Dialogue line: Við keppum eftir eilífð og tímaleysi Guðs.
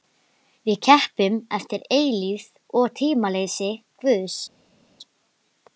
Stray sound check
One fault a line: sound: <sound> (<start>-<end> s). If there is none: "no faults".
no faults